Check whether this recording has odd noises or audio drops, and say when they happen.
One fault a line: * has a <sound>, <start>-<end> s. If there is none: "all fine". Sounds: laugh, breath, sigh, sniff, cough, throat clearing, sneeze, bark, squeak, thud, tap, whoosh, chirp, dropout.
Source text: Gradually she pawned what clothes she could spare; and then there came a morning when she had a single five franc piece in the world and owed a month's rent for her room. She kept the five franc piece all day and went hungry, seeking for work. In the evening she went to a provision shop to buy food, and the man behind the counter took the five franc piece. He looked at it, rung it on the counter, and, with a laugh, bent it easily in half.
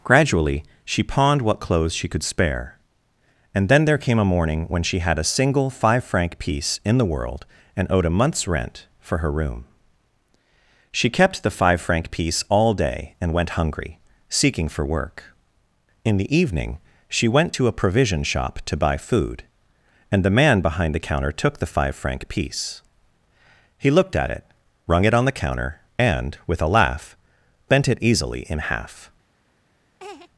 * has a laugh, 30.0-30.3 s